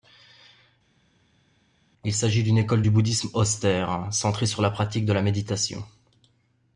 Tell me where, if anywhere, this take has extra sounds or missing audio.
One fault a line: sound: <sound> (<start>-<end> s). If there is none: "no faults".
no faults